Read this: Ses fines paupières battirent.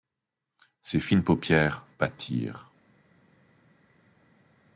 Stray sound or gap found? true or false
false